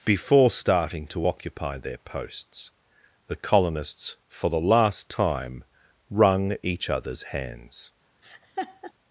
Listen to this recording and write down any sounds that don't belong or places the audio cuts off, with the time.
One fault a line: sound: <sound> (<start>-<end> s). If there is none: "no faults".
sound: laugh (8.2-8.9 s)